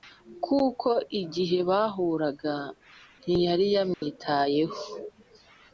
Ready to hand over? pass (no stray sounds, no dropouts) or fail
fail